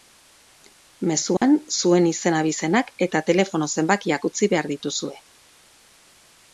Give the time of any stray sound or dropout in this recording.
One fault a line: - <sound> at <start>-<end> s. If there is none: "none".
- dropout at 1.4-1.4 s